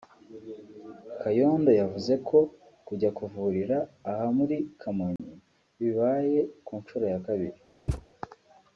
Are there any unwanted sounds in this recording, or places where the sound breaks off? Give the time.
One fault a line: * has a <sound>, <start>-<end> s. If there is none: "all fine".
* has a dropout, 5.2-5.2 s
* has a thud, 7.9-8.1 s